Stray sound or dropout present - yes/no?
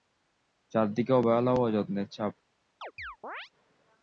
yes